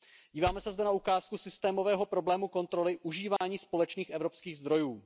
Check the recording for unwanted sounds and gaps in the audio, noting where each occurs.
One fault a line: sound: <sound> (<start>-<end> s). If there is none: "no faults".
sound: dropout (3.4-3.4 s)